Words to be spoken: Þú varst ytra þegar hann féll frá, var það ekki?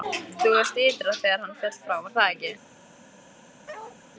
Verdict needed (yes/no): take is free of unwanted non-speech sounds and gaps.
no